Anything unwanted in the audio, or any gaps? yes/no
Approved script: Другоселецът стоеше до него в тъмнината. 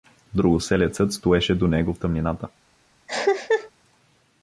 yes